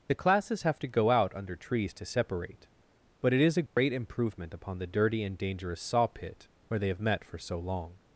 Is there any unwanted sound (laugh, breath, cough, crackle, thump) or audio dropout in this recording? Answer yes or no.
yes